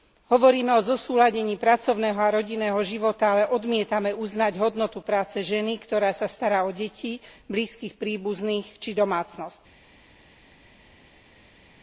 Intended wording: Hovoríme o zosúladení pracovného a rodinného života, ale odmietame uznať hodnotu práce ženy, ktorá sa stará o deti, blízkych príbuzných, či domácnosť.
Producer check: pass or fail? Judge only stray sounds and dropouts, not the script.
pass